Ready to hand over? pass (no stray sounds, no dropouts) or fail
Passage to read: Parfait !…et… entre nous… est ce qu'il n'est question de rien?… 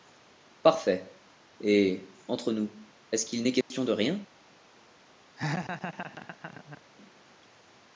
fail